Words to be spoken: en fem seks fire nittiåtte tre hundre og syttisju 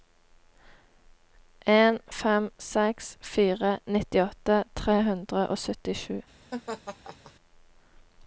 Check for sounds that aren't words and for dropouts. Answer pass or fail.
fail